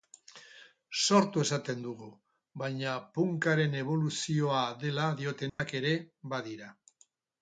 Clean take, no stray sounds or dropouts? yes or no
no